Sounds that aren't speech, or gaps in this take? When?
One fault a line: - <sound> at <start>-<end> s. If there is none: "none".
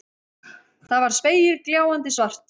none